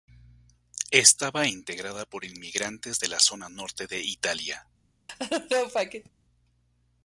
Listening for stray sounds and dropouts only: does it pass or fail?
fail